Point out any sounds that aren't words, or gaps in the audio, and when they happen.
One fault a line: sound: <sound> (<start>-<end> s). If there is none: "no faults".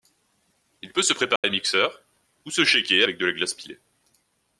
sound: dropout (1.4-1.4 s)